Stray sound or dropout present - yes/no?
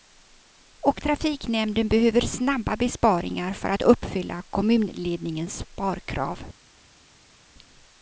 no